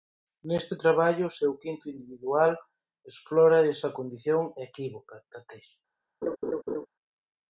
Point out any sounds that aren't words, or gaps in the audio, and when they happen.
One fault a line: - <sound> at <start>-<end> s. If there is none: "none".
- laugh at 6.2-6.9 s